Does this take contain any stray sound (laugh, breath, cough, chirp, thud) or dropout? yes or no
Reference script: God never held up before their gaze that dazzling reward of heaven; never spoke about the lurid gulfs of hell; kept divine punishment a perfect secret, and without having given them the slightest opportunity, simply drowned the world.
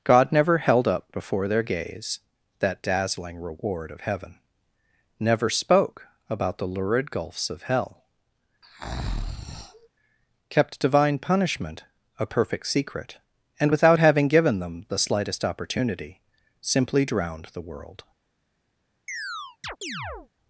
yes